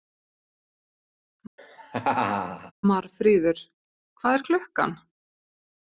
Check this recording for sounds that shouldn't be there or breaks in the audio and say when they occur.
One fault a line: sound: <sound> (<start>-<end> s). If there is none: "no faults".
sound: laugh (1.6-2.7 s)